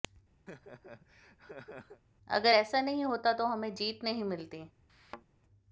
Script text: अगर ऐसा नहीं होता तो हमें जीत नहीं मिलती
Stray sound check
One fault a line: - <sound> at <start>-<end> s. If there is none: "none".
- laugh at 0.5-2.0 s
- thud at 4.9-5.2 s